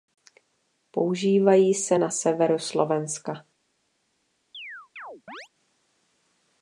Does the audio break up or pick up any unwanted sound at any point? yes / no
yes